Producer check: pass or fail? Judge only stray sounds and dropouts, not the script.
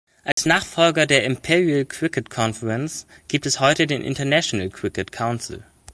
fail